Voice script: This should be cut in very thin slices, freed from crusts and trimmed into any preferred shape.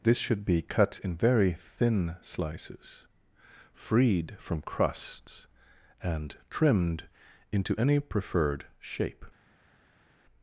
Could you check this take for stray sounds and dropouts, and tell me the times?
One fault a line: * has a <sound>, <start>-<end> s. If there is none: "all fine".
all fine